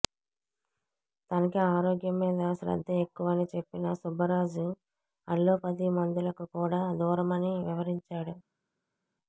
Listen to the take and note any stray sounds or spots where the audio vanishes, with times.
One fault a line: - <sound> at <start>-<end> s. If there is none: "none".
none